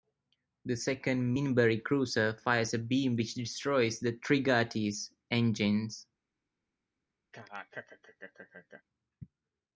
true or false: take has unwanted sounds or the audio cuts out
true